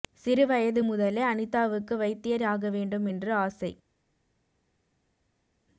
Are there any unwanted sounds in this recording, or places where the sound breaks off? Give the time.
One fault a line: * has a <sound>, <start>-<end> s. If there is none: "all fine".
all fine